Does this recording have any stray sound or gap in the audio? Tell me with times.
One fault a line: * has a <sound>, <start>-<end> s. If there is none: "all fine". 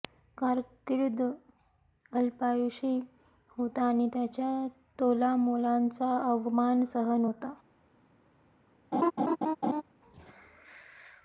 * has a laugh, 8.9-9.8 s